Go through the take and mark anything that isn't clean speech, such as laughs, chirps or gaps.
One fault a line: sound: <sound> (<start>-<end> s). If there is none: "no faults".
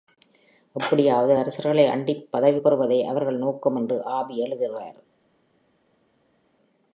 no faults